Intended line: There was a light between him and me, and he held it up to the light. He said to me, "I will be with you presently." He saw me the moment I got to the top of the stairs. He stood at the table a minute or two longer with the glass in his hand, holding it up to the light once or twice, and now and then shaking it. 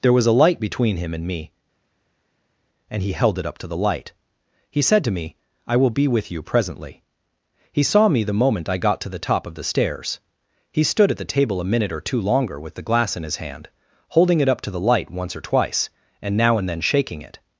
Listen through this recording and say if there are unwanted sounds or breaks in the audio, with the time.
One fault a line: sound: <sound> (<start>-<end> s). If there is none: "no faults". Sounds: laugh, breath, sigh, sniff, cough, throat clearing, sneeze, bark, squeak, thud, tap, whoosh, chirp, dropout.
no faults